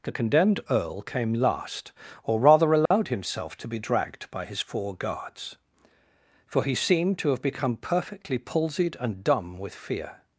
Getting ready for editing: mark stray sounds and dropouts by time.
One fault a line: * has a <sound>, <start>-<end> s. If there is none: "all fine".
* has a dropout, 2.9-2.9 s